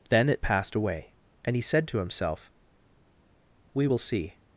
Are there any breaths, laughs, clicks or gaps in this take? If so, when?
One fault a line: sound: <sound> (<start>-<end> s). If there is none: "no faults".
no faults